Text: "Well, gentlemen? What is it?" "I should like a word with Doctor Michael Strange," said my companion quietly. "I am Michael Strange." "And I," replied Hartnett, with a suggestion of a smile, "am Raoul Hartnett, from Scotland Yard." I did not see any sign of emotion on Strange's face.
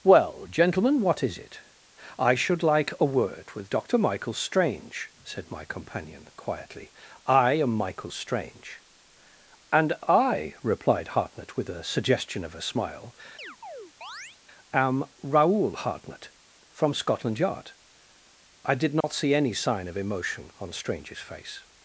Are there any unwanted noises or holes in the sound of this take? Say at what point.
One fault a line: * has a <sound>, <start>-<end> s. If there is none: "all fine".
* has a chirp, 13.4-14.4 s
* has a dropout, 19.0-19.0 s